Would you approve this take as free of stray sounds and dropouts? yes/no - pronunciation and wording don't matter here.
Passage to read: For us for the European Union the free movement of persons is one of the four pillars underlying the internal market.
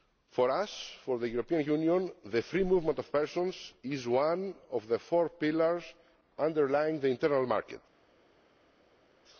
yes